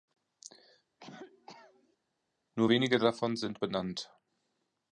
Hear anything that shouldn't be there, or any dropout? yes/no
yes